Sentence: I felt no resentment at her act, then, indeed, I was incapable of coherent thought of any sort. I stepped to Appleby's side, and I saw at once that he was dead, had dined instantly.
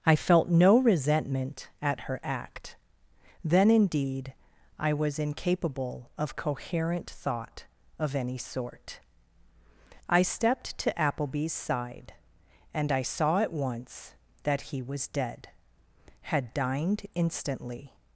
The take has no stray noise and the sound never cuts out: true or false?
true